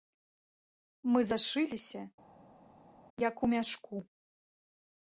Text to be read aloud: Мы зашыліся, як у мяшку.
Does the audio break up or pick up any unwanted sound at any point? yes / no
no